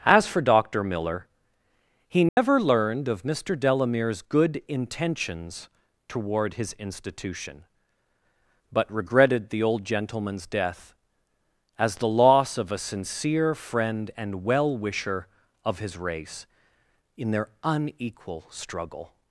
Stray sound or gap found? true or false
true